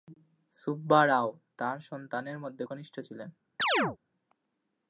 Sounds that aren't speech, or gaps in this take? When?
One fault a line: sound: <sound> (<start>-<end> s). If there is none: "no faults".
sound: chirp (3.6-4.0 s)